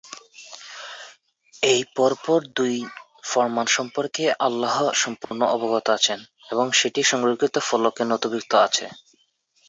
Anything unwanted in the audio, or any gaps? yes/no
yes